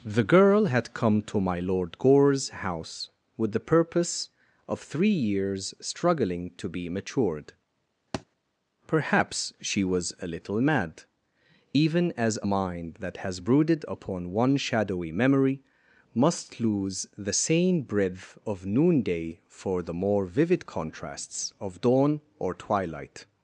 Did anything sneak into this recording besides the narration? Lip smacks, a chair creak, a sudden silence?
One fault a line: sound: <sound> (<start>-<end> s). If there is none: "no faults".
sound: thud (8.1-8.3 s)